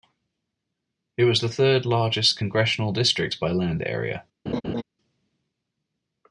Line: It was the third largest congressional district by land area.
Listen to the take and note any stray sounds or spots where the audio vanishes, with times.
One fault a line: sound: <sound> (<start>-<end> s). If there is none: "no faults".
sound: laugh (4.5-4.8 s)